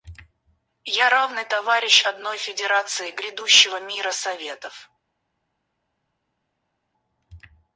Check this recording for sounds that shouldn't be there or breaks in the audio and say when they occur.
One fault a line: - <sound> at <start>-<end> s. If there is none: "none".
none